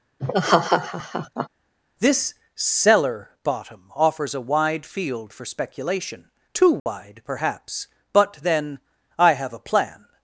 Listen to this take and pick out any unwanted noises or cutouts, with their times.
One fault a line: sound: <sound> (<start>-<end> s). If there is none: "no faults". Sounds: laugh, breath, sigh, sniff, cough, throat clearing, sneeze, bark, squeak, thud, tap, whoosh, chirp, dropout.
sound: laugh (0.2-1.5 s)
sound: dropout (6.8-6.9 s)